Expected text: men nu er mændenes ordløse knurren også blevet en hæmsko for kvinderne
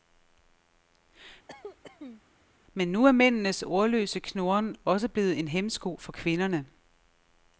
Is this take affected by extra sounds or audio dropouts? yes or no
yes